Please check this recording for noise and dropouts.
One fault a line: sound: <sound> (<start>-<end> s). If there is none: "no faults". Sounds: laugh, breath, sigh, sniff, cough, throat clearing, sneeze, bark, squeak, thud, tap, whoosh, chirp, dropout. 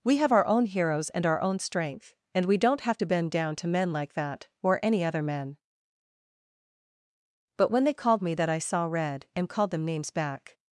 no faults